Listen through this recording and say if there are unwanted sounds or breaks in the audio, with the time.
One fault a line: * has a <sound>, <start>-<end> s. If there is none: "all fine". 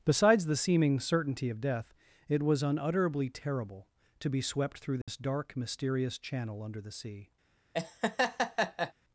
* has a dropout, 5.0-5.1 s
* has a laugh, 7.7-8.9 s